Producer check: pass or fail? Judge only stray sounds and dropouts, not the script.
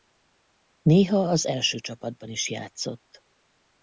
pass